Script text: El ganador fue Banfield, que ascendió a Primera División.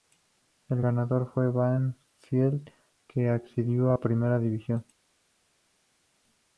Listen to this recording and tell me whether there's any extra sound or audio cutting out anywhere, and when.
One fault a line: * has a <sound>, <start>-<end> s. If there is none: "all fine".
all fine